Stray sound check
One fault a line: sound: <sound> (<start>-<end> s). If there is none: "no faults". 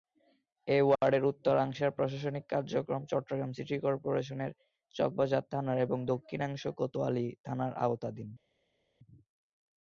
no faults